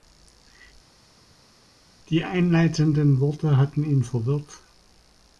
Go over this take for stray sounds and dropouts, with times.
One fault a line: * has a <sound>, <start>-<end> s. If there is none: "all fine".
all fine